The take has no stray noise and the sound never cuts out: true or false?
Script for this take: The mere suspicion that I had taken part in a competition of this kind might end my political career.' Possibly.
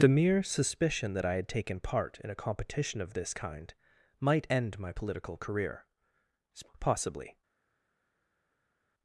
true